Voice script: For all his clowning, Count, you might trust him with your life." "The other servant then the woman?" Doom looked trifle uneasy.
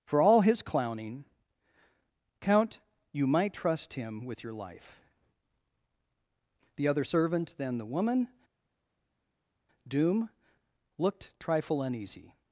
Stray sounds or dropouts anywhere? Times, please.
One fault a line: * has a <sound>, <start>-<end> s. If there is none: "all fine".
all fine